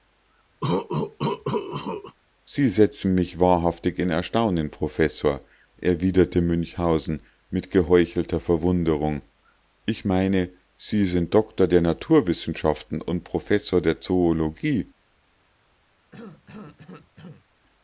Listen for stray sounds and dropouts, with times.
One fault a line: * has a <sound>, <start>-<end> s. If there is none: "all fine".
* has a cough, 0.6-2.2 s
* has a cough, 16.1-17.4 s